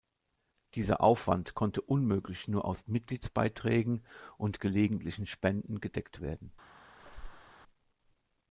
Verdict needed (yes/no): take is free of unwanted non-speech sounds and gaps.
no